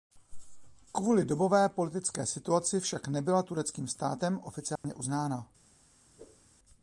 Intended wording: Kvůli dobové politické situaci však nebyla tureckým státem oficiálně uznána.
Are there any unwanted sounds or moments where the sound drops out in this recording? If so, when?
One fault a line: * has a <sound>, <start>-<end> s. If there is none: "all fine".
* has a dropout, 4.8-4.8 s
* has a whoosh, 6.2-6.5 s